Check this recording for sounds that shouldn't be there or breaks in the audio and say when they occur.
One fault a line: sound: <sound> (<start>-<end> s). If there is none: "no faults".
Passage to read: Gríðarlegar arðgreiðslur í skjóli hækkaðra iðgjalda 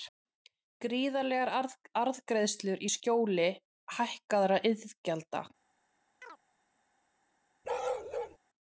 sound: chirp (6.2-6.4 s)
sound: bark (7.6-8.4 s)